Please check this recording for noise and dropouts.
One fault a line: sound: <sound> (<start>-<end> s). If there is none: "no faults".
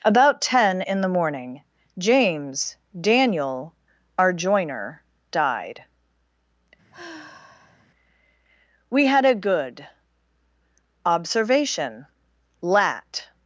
sound: sigh (6.9-7.9 s)